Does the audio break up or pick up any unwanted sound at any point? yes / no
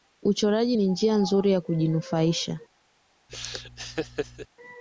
yes